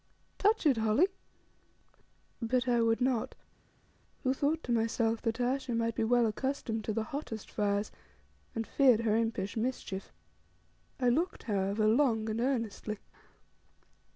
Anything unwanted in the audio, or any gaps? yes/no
no